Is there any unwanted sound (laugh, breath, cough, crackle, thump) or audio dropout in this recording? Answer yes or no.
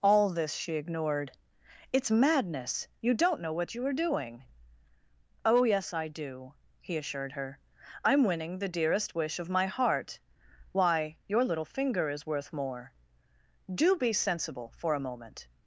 no